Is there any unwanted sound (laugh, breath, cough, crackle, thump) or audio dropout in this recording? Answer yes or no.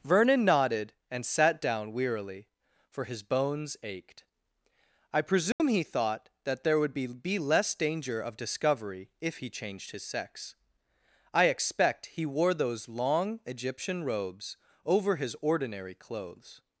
yes